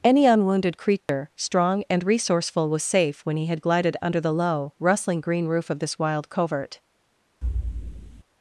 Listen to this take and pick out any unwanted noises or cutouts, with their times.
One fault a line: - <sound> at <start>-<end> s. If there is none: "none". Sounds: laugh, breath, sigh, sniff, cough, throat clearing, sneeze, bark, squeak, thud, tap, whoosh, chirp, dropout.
- dropout at 1.0-1.1 s
- thud at 7.4-8.2 s